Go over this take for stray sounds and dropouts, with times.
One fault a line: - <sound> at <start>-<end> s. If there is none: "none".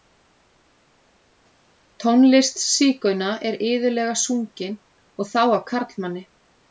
none